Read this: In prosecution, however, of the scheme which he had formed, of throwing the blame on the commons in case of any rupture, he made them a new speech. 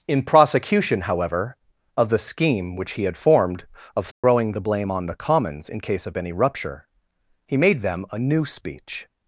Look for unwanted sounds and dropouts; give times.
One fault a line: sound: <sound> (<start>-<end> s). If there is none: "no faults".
sound: dropout (4.1-4.2 s)